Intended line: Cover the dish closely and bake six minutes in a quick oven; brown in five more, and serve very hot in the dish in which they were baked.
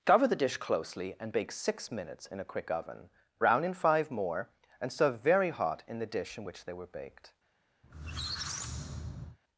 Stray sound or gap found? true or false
true